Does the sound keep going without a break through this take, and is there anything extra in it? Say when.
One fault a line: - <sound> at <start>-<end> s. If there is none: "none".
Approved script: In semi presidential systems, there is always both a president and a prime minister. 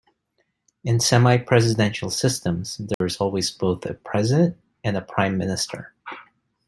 - dropout at 2.9-3.0 s